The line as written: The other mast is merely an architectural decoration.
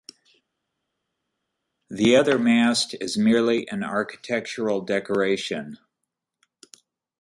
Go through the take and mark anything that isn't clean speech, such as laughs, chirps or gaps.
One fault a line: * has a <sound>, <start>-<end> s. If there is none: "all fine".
all fine